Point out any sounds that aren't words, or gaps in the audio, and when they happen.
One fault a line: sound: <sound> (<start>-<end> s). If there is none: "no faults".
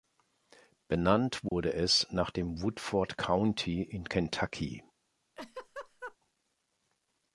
sound: dropout (1.5-1.5 s)
sound: laugh (5.4-6.2 s)